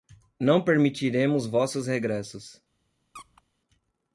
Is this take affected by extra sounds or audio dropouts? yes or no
yes